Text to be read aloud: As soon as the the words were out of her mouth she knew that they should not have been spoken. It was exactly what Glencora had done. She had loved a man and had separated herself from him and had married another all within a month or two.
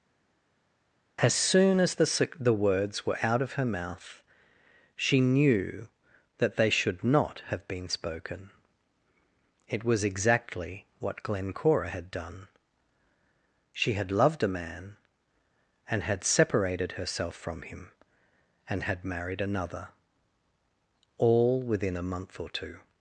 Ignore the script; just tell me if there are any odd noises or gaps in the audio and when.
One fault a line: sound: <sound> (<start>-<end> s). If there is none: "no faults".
no faults